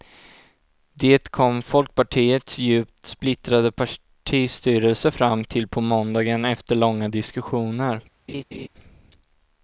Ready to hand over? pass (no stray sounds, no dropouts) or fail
fail